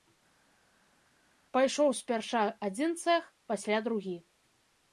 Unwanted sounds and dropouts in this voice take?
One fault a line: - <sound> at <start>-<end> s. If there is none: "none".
none